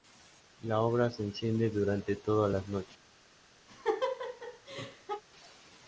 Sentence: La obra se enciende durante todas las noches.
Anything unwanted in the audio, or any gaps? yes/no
yes